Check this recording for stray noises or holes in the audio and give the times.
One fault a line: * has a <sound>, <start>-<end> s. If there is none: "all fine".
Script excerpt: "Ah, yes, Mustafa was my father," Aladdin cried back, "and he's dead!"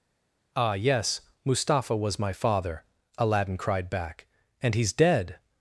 all fine